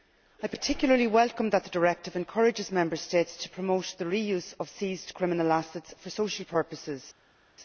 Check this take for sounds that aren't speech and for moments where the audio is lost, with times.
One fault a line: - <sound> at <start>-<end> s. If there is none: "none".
none